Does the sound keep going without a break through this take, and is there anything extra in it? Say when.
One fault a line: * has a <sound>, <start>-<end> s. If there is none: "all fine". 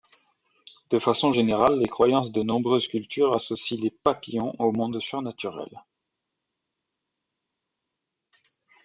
all fine